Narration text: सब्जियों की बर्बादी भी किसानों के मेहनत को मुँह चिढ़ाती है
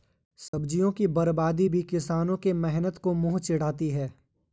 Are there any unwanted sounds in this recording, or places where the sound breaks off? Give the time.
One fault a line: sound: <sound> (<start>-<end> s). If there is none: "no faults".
sound: dropout (0.5-0.5 s)